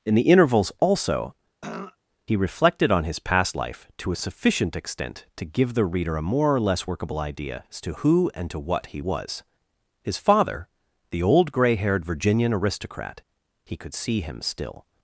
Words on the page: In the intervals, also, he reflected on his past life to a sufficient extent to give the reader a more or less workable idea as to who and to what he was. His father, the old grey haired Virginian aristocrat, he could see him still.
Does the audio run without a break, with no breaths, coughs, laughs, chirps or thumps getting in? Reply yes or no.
no